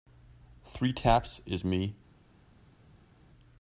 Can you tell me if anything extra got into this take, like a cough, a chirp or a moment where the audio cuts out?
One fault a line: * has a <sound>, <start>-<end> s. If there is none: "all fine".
all fine